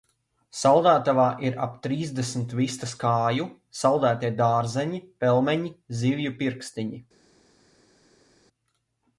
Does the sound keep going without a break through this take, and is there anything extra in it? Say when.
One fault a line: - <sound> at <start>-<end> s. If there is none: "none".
none